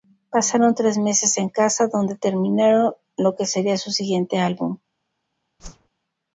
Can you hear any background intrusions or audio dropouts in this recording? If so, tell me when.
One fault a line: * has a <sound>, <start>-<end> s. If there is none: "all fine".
* has a whoosh, 5.6-5.9 s